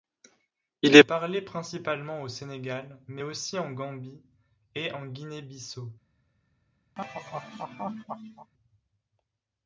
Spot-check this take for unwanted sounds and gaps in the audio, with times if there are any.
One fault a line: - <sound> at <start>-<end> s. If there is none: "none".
- laugh at 7.0-8.5 s